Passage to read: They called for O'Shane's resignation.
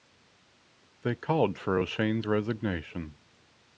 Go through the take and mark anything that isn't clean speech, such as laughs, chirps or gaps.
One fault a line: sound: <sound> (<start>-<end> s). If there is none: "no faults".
no faults